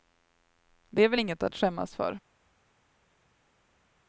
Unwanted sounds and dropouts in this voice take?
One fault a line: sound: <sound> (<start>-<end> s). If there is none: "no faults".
no faults